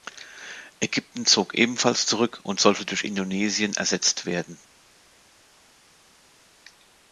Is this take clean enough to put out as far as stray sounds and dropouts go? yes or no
yes